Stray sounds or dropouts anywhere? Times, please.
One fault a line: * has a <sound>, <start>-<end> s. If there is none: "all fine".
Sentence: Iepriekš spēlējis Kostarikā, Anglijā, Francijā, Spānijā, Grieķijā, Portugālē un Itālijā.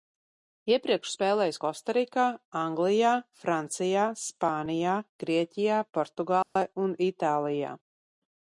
* has a dropout, 6.4-6.6 s